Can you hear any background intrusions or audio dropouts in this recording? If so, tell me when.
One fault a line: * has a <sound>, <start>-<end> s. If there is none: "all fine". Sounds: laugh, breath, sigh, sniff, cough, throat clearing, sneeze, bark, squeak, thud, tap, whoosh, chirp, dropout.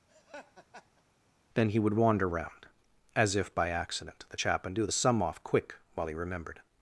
* has a laugh, 0.1-1.0 s